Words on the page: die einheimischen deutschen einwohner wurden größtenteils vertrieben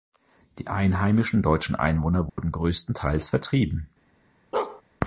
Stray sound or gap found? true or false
true